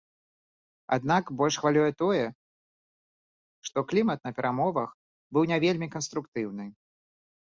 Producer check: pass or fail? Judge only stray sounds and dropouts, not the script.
pass